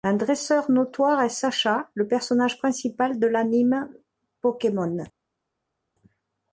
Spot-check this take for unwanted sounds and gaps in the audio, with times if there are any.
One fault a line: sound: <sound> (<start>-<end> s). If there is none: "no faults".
no faults